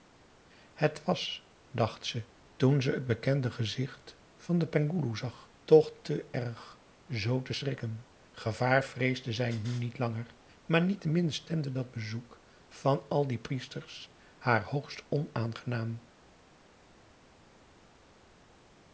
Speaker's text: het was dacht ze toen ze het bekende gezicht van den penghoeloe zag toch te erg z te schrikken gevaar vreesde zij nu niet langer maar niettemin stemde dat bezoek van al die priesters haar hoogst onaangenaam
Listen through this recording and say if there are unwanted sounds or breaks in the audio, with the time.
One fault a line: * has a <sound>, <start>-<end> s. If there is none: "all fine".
all fine